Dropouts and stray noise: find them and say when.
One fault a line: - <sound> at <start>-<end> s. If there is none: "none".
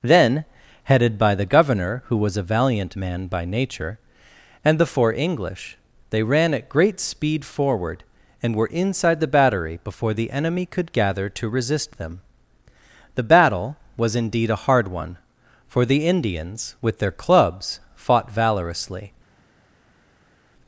none